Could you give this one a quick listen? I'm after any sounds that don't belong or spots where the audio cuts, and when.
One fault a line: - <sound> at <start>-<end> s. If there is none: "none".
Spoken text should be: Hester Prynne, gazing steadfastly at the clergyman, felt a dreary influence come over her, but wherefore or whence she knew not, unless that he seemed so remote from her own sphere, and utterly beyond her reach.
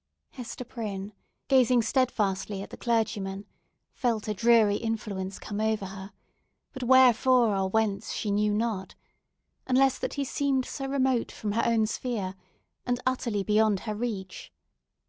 none